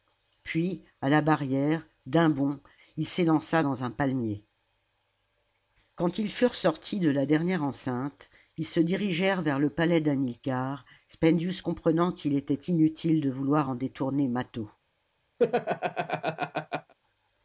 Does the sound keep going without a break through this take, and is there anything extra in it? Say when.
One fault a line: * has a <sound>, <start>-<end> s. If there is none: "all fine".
* has a laugh, 15.4-16.9 s